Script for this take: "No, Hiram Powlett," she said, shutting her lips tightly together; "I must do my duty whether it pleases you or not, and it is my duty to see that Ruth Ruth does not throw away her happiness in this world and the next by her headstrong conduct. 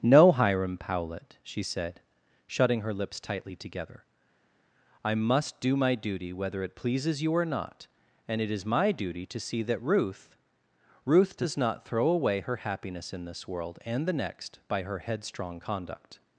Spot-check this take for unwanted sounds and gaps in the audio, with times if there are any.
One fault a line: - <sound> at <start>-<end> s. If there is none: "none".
none